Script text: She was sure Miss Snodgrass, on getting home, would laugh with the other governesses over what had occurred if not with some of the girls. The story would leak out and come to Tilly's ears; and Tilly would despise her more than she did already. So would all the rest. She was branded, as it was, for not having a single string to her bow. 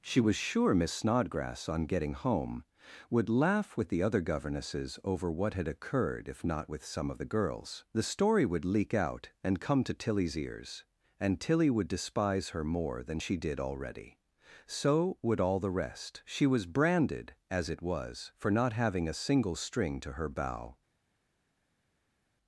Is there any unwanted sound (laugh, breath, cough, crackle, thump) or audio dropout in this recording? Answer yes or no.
no